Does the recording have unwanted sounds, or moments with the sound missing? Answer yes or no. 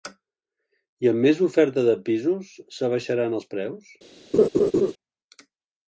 yes